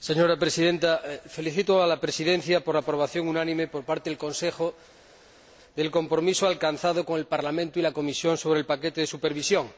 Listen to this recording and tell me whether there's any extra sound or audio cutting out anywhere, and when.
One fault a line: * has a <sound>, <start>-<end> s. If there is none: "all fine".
all fine